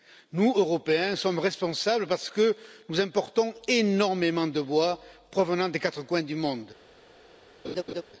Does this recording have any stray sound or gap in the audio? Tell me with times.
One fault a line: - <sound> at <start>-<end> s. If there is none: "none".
- laugh at 7.6-8.0 s